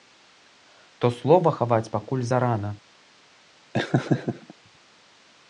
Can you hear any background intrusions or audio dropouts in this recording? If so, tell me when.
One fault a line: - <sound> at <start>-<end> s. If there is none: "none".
- laugh at 3.7-4.5 s